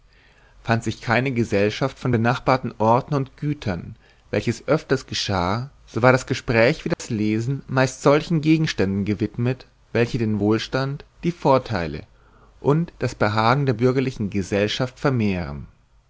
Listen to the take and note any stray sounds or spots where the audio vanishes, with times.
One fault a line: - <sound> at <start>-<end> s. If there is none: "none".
- dropout at 6.9-7.0 s